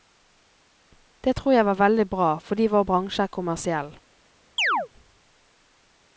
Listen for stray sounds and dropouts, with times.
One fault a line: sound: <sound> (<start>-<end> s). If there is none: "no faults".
sound: chirp (4.6-4.9 s)